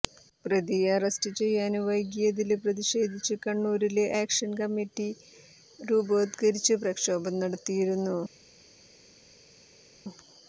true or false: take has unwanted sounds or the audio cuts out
false